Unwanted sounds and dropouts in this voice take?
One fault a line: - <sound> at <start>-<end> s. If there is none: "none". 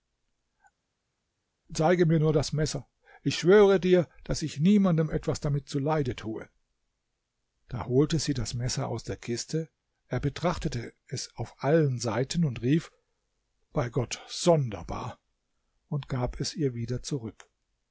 none